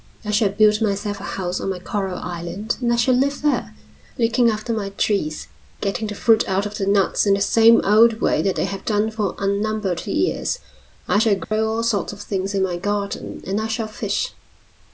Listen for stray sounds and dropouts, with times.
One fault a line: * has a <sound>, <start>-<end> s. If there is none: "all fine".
* has a dropout, 11.4-11.5 s